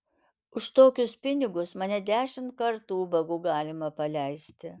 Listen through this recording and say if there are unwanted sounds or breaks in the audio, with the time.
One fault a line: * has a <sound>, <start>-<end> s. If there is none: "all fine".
all fine